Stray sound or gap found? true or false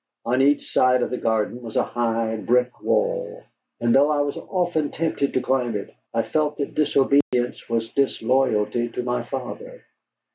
true